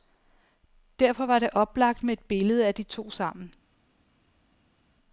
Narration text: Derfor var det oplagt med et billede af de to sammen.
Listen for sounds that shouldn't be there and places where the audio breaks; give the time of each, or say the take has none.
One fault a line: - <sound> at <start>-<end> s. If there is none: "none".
none